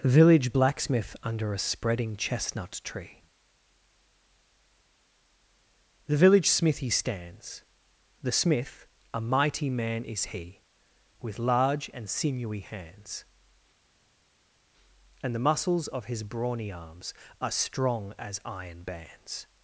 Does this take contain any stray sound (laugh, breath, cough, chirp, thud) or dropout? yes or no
no